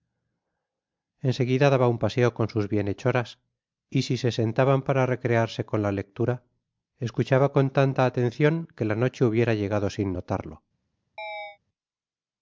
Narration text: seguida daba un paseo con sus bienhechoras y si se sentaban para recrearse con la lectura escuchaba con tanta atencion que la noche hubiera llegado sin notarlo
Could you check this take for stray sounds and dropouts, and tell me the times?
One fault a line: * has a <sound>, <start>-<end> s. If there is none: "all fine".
* has a chirp, 11.2-11.6 s